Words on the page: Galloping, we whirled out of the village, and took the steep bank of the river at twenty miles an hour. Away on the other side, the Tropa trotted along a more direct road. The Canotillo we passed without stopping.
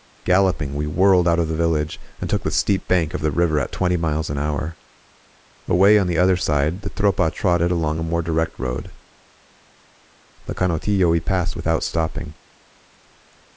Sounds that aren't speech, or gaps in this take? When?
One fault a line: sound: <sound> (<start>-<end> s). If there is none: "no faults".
no faults